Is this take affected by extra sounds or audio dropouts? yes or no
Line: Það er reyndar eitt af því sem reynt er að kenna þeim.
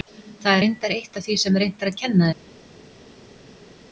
no